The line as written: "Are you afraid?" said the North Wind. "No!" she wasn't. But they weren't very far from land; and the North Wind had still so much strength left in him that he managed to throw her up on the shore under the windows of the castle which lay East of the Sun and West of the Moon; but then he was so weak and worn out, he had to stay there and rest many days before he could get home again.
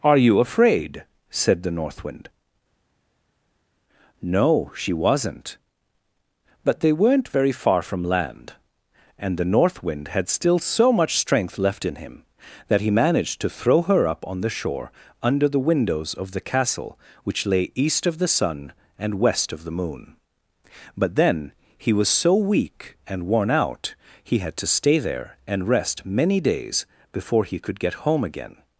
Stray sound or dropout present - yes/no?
no